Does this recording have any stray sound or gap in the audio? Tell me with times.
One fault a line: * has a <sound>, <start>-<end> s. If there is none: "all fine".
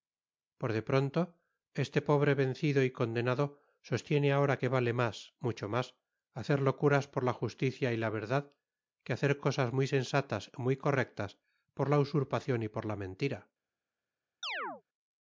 * has a chirp, 14.4-14.8 s